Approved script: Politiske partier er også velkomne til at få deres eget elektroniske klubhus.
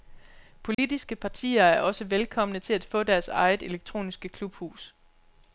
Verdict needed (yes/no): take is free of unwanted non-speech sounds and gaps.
no